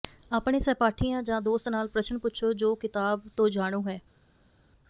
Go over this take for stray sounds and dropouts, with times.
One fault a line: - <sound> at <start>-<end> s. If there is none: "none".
none